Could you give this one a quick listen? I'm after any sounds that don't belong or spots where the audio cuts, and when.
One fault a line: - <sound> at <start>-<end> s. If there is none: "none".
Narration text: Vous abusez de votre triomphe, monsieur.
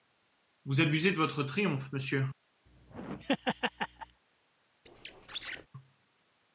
- laugh at 2.7-4.2 s
- squeak at 4.9-5.7 s